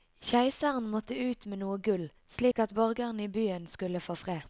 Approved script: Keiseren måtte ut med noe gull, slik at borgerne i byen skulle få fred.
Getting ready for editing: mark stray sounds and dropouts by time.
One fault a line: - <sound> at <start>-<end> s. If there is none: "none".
- dropout at 2.5-2.6 s